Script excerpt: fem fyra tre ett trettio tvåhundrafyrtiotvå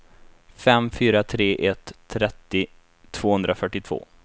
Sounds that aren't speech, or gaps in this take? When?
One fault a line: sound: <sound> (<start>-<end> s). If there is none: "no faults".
no faults